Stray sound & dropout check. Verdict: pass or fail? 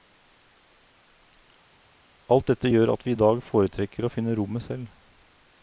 pass